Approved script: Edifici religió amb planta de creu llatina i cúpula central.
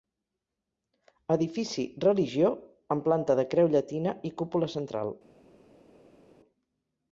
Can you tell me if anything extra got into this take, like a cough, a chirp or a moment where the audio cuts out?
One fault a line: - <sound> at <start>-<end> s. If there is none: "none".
none